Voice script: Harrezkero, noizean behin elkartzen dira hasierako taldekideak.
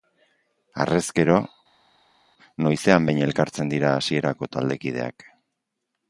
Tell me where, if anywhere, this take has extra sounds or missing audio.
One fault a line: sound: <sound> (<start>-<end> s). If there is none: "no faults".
no faults